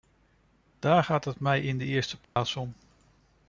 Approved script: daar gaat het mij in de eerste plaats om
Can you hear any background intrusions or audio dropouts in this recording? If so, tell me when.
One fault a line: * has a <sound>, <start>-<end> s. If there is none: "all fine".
* has a dropout, 2.2-2.4 s